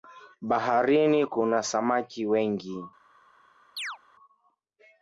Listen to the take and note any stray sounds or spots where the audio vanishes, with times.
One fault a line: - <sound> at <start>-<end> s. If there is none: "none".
- chirp at 3.8-4.0 s